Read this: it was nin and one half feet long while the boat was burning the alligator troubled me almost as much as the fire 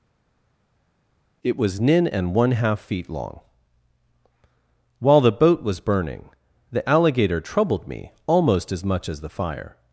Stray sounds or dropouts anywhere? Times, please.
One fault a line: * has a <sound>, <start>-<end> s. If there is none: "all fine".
all fine